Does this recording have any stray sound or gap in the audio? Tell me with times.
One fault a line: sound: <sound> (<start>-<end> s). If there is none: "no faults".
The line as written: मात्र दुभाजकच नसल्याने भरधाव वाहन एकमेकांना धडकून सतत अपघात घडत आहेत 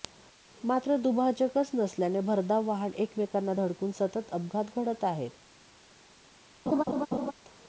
sound: laugh (6.7-7.3 s)